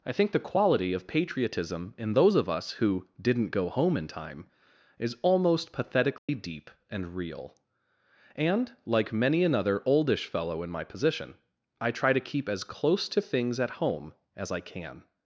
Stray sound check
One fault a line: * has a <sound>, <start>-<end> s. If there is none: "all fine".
* has a dropout, 6.2-6.3 s